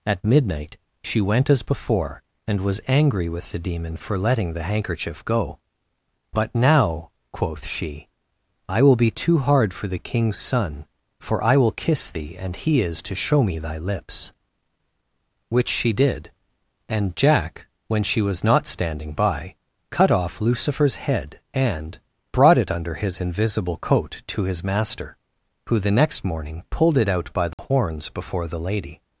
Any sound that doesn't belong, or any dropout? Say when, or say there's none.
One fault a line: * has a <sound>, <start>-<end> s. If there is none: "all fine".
* has a dropout, 27.5-27.6 s